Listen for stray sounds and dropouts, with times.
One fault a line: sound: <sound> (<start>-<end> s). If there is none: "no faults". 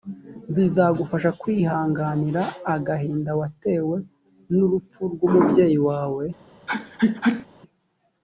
sound: sneeze (6.7-7.5 s)